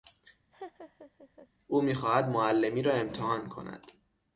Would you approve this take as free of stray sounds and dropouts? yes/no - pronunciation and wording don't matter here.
no